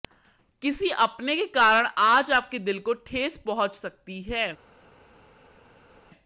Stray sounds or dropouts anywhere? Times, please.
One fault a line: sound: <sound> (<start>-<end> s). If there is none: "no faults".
no faults